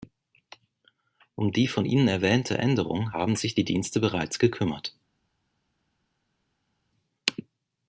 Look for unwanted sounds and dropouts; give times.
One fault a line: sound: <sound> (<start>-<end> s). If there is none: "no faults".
no faults